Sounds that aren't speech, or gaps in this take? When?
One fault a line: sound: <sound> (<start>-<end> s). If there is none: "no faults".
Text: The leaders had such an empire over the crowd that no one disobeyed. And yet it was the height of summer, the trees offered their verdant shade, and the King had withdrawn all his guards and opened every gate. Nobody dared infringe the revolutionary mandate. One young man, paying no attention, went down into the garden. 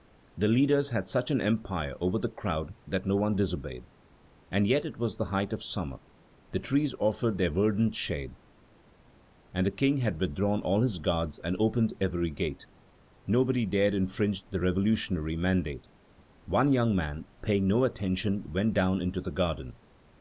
no faults